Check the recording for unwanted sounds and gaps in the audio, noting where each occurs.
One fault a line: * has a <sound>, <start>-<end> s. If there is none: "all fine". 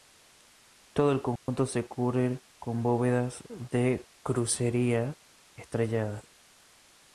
* has a dropout, 1.4-1.5 s